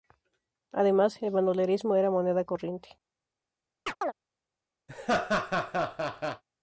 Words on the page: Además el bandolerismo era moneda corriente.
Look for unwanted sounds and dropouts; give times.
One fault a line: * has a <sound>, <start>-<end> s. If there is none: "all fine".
* has a chirp, 3.9-4.1 s
* has a laugh, 4.9-6.4 s